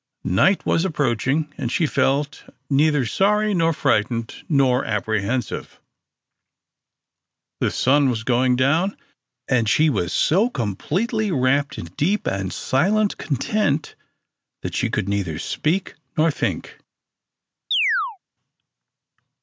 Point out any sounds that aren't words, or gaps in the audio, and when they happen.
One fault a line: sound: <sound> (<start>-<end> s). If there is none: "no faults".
sound: chirp (17.7-18.2 s)